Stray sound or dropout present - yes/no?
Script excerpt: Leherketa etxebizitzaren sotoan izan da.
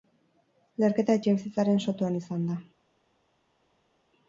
no